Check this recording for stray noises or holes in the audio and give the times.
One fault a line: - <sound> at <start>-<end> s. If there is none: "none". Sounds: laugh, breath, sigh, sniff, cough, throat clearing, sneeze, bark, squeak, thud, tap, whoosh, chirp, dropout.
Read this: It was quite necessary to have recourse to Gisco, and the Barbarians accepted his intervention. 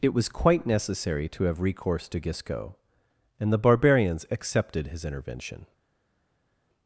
none